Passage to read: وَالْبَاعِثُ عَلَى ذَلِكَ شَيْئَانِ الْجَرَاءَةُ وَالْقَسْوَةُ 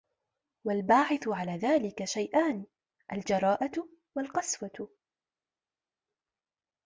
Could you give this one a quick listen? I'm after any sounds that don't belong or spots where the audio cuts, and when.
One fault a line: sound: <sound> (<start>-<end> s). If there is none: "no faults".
no faults